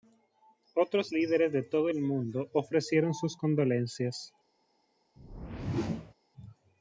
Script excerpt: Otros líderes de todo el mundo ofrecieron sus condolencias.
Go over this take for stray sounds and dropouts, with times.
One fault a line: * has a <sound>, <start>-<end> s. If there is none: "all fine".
* has a whoosh, 5.2-6.1 s